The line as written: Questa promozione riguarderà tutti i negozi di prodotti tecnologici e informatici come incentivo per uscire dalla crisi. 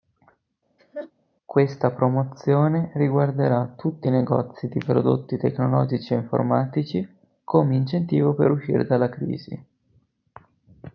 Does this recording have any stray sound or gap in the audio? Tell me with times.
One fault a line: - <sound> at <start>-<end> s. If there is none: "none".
- laugh at 0.8-1.1 s